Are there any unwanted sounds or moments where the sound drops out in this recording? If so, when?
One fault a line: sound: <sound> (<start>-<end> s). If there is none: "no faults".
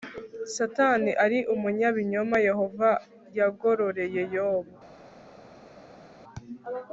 no faults